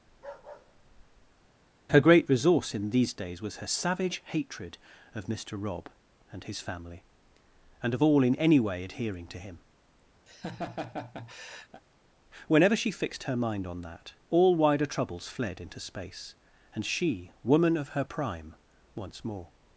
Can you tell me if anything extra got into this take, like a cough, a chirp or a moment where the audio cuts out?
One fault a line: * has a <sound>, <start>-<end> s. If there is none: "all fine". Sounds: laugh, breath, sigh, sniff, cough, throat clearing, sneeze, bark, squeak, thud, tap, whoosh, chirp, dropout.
* has a bark, 0.1-1.5 s
* has a laugh, 10.3-11.8 s